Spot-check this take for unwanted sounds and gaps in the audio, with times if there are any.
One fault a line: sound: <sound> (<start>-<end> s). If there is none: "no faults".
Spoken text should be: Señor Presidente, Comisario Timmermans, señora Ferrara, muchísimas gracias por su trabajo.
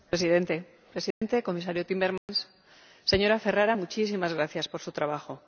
sound: dropout (1.1-1.2 s)
sound: dropout (2.2-2.3 s)